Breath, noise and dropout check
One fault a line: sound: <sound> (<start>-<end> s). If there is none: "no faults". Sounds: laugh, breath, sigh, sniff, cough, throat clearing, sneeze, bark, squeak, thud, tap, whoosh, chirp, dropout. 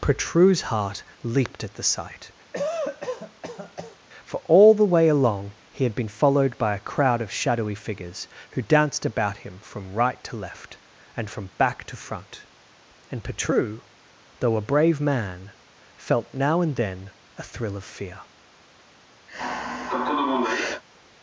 sound: cough (2.5-4.0 s)
sound: sigh (19.3-20.8 s)